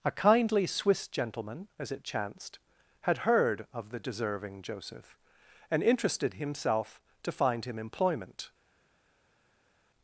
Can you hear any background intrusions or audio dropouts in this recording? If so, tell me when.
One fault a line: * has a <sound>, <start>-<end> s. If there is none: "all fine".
all fine